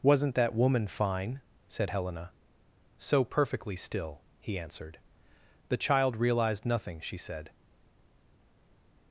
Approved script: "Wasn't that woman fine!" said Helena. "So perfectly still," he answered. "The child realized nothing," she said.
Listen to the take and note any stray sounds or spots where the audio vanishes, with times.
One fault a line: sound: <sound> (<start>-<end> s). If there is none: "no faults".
no faults